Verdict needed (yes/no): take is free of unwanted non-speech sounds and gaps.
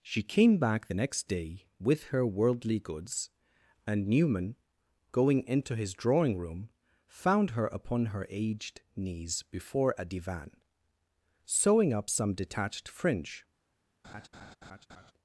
no